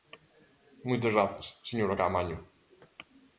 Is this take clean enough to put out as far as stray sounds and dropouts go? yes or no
yes